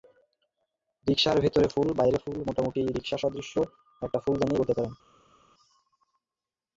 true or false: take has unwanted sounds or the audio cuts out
false